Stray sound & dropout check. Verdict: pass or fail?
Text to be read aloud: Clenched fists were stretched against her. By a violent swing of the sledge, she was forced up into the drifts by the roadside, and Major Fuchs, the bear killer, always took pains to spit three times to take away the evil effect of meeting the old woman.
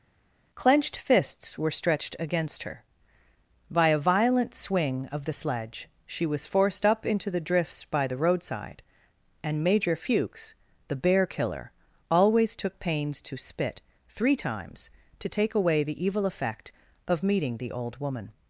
pass